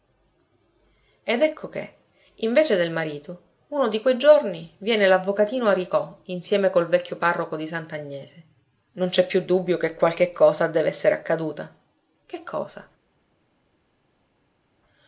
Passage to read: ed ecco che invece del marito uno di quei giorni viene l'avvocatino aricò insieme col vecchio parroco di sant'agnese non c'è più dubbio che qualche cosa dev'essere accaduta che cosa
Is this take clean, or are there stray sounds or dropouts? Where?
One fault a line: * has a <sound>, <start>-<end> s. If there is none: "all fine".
all fine